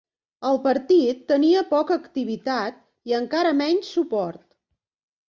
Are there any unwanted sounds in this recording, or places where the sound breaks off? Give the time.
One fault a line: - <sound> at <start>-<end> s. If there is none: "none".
none